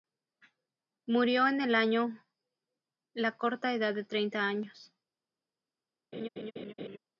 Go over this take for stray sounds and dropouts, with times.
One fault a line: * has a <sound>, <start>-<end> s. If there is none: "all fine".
* has a laugh, 6.1-7.0 s